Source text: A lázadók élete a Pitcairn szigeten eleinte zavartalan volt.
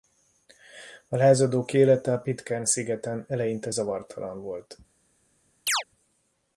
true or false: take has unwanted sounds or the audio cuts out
true